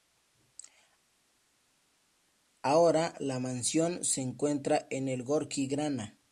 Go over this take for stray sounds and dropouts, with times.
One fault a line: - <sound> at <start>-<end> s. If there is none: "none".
none